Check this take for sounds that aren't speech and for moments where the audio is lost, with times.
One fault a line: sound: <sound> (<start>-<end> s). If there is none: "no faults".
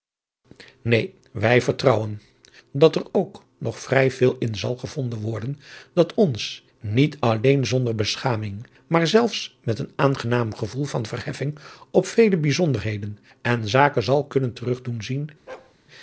sound: bark (15.5-15.8 s)